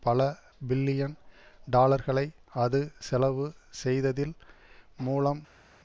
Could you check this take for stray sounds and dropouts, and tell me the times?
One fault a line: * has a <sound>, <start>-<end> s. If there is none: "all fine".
all fine